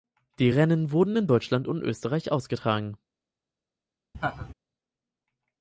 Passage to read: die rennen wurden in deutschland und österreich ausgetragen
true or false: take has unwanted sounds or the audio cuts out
true